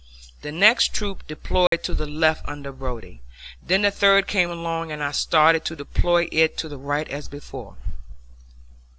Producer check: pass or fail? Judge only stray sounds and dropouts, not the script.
fail